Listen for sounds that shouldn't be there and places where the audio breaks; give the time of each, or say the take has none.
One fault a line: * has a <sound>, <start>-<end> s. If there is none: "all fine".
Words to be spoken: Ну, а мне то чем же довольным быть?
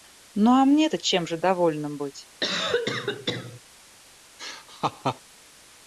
* has a cough, 2.4-3.6 s
* has a laugh, 4.4-5.2 s